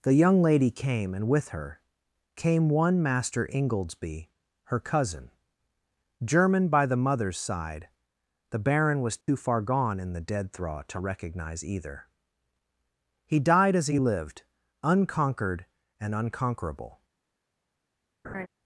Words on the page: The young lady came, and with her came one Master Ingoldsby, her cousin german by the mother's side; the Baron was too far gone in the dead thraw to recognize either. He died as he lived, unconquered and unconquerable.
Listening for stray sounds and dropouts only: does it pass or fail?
fail